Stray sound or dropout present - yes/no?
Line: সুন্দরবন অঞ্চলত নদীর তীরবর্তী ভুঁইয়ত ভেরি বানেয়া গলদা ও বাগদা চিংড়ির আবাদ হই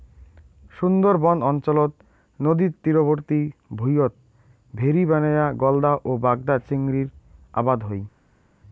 no